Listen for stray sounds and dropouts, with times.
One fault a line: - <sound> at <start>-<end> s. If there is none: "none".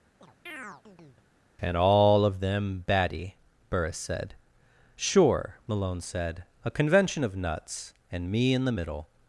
- chirp at 0.2-1.3 s